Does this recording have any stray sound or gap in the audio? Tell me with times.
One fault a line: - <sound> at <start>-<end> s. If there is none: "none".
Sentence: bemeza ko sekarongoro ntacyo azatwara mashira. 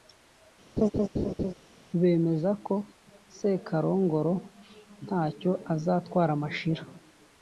- laugh at 0.8-1.5 s